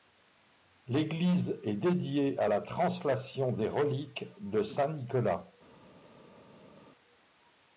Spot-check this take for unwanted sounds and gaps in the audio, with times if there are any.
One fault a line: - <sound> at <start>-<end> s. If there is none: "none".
none